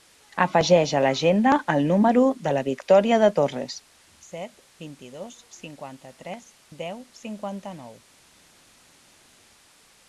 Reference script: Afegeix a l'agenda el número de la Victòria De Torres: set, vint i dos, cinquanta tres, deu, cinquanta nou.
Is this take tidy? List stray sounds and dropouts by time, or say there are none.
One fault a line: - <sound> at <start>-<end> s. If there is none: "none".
none